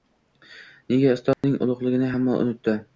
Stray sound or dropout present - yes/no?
yes